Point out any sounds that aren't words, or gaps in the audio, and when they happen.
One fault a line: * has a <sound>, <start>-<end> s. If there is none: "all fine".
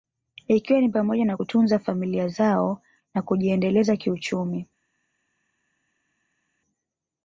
all fine